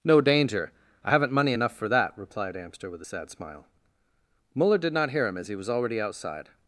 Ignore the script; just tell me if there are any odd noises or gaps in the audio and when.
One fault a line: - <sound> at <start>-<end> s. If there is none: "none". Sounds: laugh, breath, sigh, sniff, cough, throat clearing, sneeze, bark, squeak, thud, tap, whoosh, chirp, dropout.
none